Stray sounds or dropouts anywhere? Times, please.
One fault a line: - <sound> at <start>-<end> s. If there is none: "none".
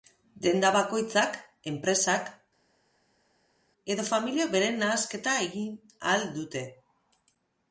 none